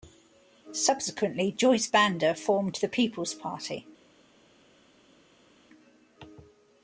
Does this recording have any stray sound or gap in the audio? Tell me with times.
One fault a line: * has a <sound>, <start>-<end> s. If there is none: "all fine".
all fine